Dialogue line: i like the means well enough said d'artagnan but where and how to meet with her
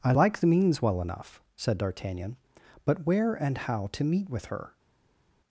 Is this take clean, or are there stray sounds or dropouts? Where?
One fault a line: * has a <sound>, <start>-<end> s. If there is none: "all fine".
all fine